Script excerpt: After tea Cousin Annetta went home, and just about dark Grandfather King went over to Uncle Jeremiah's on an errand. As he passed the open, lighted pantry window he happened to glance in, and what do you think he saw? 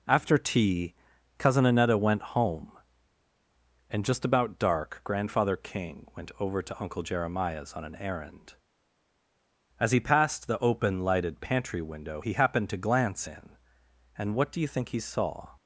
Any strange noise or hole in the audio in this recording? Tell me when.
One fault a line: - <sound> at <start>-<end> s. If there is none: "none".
none